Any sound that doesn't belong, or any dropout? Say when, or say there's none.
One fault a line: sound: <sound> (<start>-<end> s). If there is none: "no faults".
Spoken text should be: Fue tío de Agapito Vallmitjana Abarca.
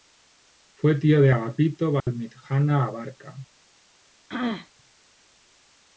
sound: dropout (2.0-2.1 s)
sound: throat clearing (4.3-4.7 s)